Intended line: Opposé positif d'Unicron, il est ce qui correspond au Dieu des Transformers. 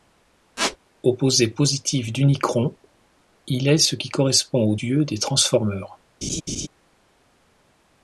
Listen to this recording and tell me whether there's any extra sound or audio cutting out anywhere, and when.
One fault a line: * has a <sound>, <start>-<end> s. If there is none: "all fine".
* has a squeak, 0.6-0.8 s
* has a laugh, 6.2-6.7 s